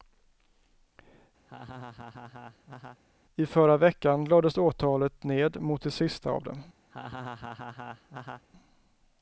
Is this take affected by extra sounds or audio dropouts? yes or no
yes